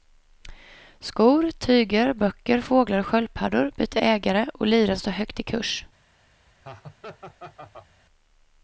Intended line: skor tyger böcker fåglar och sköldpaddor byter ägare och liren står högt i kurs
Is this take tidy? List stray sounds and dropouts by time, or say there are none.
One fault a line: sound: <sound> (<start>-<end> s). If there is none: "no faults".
sound: laugh (6.6-7.9 s)